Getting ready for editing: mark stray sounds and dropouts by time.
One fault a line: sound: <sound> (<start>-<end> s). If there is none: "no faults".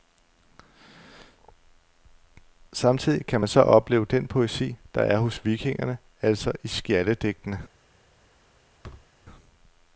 sound: thud (8.8-9.1 s)